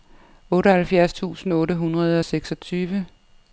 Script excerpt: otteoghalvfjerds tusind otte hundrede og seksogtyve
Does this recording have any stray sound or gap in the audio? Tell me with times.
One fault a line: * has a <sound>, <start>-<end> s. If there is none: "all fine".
all fine